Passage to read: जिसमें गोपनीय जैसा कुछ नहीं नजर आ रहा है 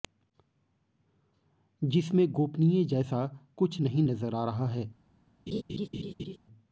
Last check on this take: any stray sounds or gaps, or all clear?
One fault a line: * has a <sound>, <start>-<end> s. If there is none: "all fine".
* has a laugh, 5.5-6.4 s